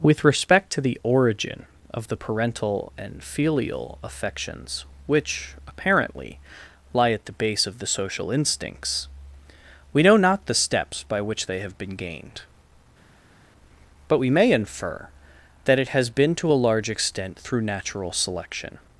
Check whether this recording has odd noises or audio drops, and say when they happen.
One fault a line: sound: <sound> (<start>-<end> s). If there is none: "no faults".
no faults